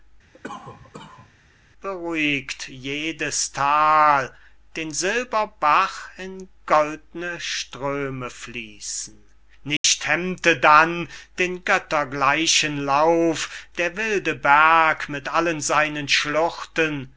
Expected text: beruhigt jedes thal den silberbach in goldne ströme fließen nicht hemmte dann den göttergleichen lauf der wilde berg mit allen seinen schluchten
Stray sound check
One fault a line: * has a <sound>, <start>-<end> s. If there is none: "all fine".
* has a cough, 0.3-1.3 s
* has a dropout, 9.8-9.8 s